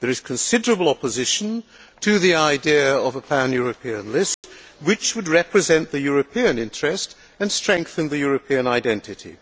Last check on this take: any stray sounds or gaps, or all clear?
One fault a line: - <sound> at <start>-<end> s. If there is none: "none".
- dropout at 4.3-4.4 s